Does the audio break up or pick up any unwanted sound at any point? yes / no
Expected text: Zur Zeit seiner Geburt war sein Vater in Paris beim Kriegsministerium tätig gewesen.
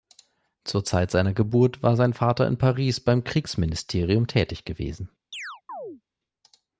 yes